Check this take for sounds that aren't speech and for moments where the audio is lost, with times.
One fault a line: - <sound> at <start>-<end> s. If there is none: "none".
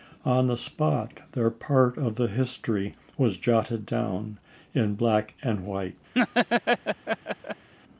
- laugh at 6.1-7.7 s